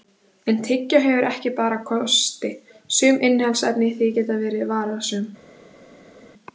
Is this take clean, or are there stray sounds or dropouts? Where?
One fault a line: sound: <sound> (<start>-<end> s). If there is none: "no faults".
no faults